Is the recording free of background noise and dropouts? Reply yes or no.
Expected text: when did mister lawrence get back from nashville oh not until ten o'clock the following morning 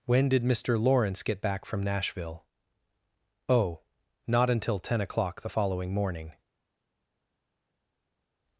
yes